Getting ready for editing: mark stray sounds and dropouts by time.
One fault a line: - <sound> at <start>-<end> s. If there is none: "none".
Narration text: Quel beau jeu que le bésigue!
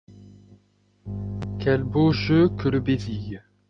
none